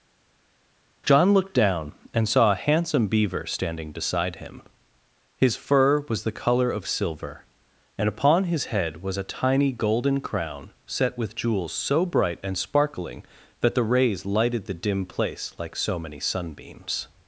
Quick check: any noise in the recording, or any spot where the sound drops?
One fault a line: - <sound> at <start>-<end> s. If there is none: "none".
none